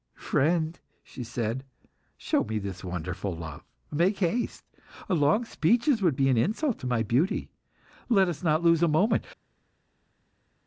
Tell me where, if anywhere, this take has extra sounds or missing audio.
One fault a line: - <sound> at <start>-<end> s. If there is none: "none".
none